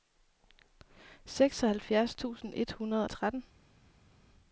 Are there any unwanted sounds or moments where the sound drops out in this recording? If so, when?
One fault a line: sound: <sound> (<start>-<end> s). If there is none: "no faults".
no faults